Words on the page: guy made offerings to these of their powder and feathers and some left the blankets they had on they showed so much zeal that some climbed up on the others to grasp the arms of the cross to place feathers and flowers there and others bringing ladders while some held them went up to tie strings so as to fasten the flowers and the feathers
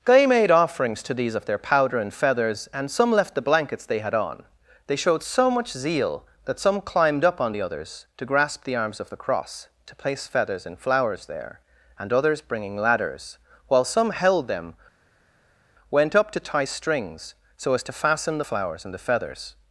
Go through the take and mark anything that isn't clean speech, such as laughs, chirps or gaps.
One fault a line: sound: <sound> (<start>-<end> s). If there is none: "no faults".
no faults